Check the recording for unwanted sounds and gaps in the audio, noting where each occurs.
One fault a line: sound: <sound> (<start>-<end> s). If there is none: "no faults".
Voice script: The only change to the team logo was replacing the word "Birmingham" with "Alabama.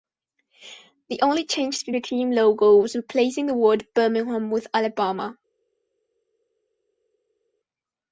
no faults